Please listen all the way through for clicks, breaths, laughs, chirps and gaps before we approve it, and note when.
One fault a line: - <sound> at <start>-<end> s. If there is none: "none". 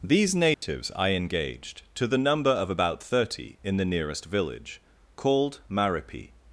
- dropout at 0.5-0.6 s